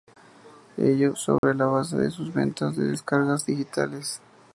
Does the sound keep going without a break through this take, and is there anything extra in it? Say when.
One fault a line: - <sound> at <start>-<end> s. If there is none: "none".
- dropout at 1.4-1.4 s